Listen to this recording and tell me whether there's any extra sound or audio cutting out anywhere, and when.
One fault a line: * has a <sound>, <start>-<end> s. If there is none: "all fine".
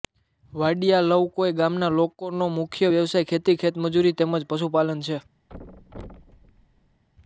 * has a thud, 5.5-7.0 s